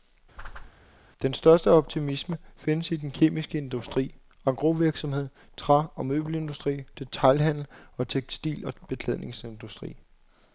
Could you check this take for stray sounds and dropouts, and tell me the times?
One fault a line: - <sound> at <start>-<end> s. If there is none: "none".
- whoosh at 0.4-0.7 s